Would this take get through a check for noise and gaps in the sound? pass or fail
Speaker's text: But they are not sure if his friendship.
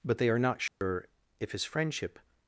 fail